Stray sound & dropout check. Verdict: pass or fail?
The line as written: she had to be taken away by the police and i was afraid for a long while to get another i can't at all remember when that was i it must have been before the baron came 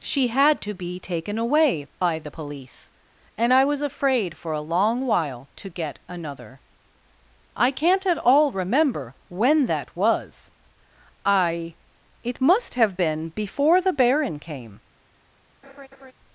fail